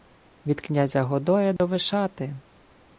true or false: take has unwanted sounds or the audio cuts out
true